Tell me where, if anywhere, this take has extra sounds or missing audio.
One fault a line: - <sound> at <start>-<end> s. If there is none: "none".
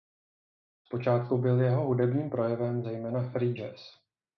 none